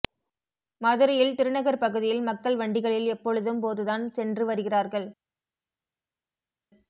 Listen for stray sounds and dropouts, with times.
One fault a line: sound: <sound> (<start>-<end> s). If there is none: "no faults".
no faults